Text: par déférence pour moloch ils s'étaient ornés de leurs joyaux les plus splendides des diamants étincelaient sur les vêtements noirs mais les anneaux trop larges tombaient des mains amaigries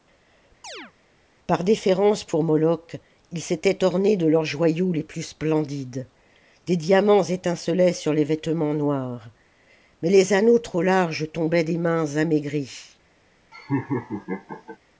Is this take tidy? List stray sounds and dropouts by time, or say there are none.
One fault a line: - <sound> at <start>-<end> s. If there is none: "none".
- chirp at 0.6-0.9 s
- laugh at 13.5-14.8 s